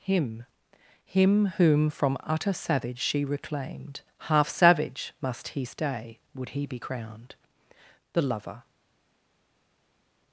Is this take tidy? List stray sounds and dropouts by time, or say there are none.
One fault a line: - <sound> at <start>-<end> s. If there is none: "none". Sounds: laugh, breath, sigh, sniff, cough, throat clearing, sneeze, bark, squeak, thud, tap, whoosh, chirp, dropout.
none